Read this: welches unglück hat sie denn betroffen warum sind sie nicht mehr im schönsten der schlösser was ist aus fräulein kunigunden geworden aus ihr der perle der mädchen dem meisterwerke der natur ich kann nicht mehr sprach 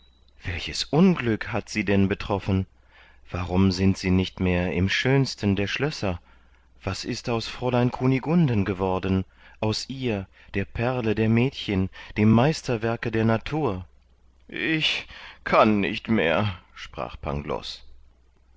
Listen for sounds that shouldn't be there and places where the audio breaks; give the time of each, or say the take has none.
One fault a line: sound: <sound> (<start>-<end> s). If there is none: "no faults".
no faults